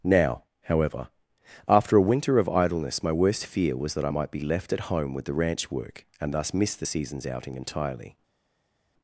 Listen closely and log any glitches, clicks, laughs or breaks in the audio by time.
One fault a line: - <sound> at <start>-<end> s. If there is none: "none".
none